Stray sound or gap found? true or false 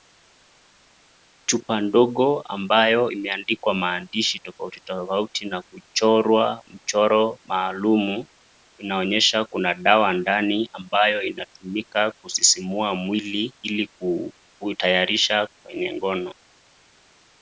false